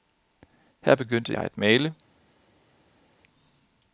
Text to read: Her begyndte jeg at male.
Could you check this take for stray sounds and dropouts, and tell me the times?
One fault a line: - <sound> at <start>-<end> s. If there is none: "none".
none